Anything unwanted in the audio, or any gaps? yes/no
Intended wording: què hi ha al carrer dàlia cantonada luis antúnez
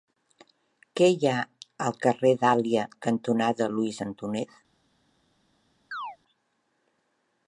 yes